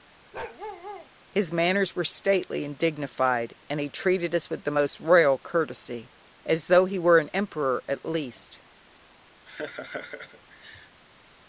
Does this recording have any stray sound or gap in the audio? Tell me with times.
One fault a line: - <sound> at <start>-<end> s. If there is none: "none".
- bark at 0.3-1.1 s
- laugh at 9.4-11.0 s